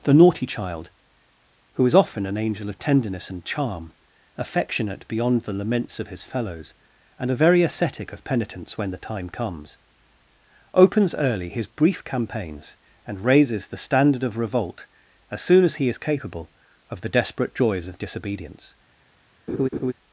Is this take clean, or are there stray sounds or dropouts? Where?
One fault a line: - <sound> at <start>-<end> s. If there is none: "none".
- laugh at 19.5-19.9 s